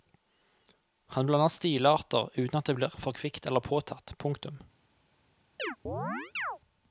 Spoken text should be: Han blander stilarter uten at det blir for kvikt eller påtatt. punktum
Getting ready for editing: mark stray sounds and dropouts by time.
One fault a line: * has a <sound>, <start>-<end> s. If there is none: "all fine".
* has a chirp, 5.6-6.6 s